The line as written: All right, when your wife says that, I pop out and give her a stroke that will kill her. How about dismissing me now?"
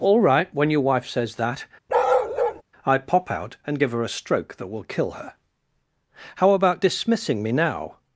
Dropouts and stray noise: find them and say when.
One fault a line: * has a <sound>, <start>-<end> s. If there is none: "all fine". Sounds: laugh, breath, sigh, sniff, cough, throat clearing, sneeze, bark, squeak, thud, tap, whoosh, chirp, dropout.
* has a bark, 1.9-2.6 s